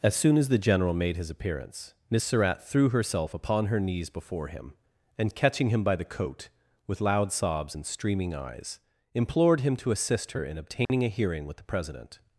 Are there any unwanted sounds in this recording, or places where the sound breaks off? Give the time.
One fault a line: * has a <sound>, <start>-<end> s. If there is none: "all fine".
* has a dropout, 10.9-10.9 s